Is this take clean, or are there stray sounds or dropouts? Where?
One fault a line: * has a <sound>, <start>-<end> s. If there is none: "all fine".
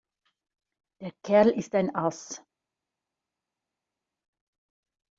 all fine